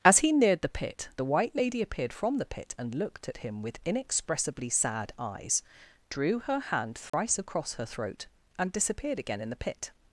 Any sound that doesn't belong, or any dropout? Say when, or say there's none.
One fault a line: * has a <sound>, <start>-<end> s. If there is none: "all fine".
* has a dropout, 7.1-7.1 s